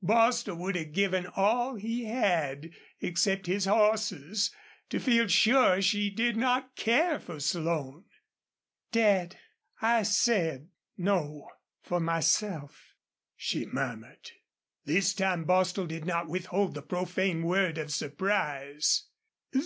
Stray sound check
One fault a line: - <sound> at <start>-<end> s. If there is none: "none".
none